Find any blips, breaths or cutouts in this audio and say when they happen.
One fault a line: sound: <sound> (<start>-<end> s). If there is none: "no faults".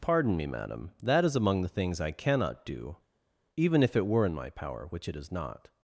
no faults